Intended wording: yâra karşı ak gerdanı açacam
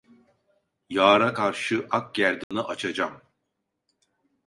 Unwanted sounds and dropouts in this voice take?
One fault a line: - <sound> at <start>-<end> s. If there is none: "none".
- dropout at 2.4-2.5 s